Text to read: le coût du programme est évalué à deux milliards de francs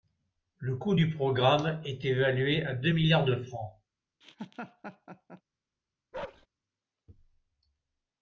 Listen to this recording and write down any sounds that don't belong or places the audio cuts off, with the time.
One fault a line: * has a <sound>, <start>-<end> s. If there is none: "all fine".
* has a laugh, 4.2-5.4 s
* has a bark, 6.1-6.5 s